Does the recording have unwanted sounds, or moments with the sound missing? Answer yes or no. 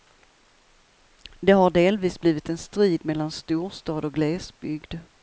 no